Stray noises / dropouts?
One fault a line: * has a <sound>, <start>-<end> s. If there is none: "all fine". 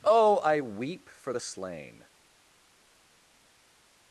all fine